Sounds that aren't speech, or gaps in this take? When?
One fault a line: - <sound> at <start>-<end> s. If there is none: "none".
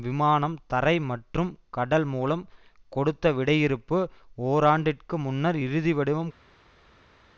none